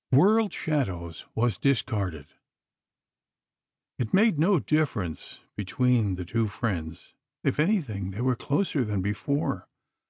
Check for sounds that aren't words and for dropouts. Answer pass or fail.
pass